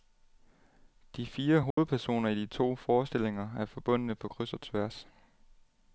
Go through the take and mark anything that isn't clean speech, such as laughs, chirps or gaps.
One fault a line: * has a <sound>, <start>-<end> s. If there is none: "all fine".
* has a dropout, 1.7-1.8 s